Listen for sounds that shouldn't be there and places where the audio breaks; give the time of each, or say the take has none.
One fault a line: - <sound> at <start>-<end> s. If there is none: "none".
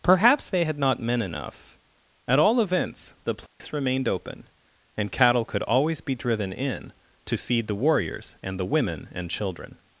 - dropout at 3.5-3.6 s